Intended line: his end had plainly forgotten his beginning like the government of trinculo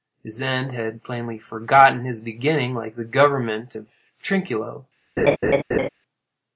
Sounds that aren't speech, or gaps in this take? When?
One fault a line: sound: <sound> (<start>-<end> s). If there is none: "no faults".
sound: laugh (5.2-5.9 s)